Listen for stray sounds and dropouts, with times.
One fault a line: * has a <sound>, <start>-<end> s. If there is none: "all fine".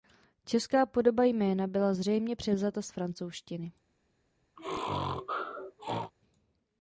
* has a sneeze, 4.6-6.1 s